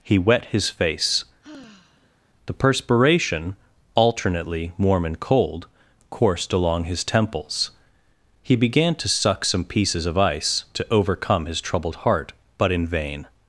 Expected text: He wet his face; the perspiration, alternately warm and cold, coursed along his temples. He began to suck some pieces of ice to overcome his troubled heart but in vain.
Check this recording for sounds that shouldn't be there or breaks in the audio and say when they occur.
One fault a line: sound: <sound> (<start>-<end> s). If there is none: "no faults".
sound: sigh (1.4-2.2 s)